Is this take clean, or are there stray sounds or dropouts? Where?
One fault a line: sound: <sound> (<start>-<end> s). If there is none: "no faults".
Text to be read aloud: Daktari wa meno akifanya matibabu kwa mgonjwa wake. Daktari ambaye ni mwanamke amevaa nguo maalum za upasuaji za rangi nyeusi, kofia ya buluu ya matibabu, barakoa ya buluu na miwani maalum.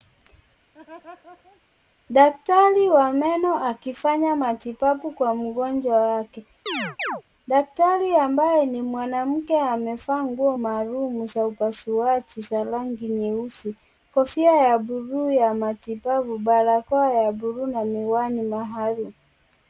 sound: laugh (0.7-1.6 s)
sound: chirp (6.7-7.2 s)